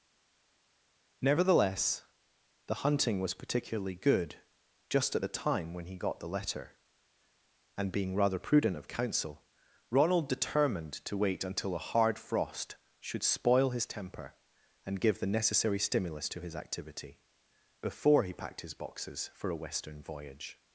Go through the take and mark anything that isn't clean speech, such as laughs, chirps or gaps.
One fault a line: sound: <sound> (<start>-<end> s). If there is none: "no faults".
no faults